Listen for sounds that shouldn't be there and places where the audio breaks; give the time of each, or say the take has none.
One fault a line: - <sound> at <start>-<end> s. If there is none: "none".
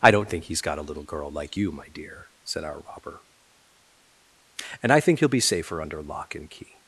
none